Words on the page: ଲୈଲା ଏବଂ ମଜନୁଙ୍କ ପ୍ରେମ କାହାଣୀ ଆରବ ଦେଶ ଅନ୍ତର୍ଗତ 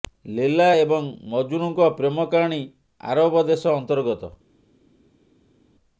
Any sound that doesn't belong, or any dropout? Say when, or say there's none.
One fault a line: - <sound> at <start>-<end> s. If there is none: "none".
none